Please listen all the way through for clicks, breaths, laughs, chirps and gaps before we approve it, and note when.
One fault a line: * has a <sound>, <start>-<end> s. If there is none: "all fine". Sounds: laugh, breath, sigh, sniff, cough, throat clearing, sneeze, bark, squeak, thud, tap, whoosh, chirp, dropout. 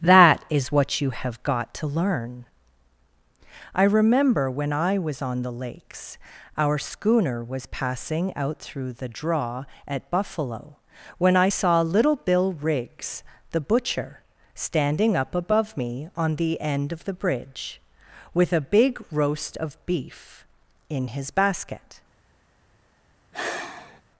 * has a sigh, 23.3-24.0 s